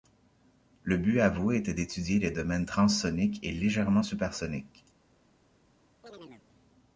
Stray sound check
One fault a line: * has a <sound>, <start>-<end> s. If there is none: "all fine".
* has a chirp, 6.0-6.5 s